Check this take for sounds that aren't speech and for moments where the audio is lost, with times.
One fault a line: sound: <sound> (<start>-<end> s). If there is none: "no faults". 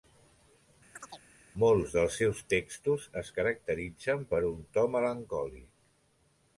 sound: chirp (0.9-1.3 s)